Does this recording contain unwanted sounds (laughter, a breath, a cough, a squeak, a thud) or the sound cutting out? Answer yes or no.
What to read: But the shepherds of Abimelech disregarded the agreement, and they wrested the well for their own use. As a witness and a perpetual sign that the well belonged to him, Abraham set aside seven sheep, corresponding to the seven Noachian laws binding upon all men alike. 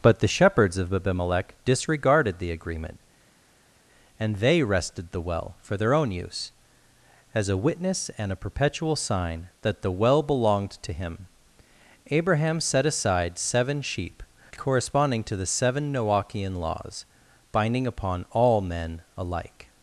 no